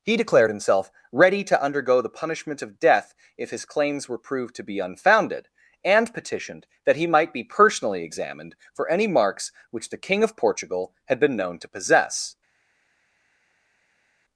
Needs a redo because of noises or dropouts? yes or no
no